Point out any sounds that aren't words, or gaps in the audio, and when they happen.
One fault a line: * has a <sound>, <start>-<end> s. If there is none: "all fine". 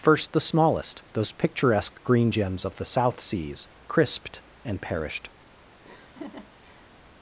* has a laugh, 5.8-6.9 s